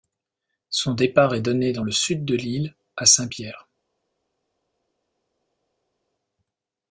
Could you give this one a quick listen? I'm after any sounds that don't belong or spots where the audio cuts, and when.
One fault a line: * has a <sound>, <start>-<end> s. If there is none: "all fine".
all fine